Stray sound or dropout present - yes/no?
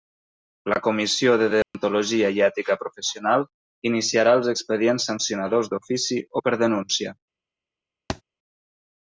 yes